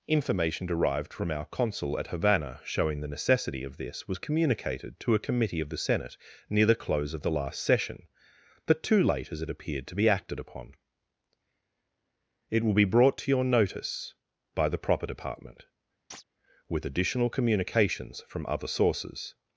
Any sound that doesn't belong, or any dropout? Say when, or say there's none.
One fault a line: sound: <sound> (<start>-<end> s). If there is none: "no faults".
sound: chirp (16.1-16.2 s)